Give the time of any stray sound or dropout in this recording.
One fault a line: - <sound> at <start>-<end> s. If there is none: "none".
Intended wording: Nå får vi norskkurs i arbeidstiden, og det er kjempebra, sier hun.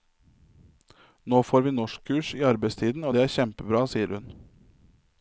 none